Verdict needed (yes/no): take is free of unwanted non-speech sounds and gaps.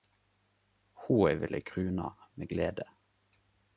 yes